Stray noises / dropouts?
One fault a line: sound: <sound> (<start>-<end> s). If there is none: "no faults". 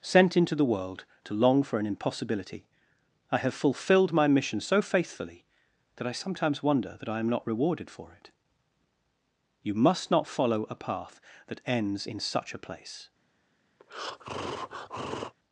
sound: breath (13.8-15.3 s)